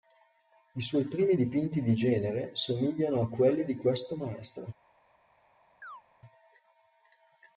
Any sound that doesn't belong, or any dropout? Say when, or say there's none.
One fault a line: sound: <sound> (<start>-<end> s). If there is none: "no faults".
sound: chirp (5.8-6.0 s)